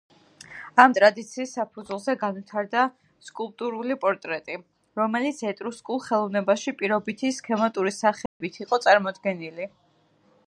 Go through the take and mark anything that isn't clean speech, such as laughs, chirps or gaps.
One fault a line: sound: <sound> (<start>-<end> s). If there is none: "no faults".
sound: dropout (8.3-8.4 s)